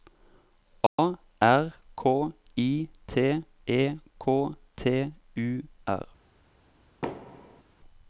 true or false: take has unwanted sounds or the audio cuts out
true